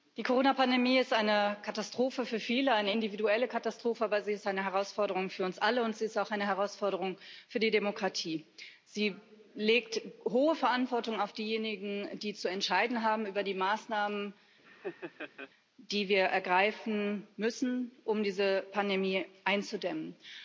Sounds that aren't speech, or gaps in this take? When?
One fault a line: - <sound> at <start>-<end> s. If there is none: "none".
- laugh at 14.6-15.5 s